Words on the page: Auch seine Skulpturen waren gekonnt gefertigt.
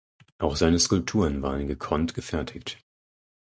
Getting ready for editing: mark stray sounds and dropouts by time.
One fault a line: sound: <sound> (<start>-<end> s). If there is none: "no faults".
no faults